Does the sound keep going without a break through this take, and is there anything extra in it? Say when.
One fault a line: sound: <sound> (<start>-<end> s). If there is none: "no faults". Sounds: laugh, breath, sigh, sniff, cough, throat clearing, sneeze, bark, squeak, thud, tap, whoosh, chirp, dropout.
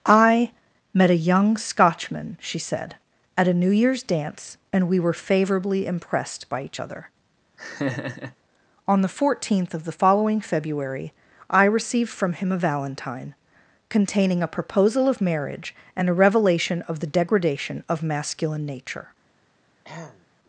sound: laugh (7.6-8.4 s)
sound: throat clearing (19.8-20.3 s)